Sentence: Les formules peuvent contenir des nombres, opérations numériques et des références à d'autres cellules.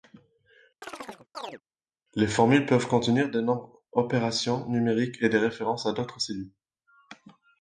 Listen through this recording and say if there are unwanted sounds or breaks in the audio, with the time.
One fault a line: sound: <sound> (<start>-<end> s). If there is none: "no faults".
sound: chirp (0.8-1.6 s)